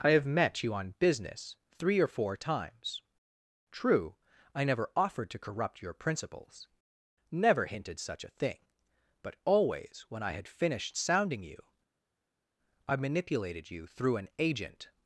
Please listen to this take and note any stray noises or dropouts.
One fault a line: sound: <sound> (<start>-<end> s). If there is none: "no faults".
no faults